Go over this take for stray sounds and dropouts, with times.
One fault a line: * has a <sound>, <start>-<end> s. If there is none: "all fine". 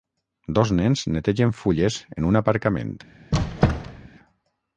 * has a squeak, 3.3-4.1 s